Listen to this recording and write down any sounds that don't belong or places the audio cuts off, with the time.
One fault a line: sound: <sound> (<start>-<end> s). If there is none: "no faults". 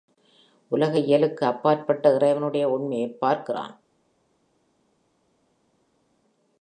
no faults